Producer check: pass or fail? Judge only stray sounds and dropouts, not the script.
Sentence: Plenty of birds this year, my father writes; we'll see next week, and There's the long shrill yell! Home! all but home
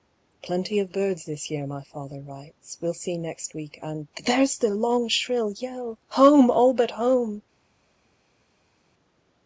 pass